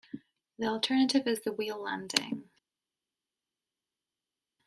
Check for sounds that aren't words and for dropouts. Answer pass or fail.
pass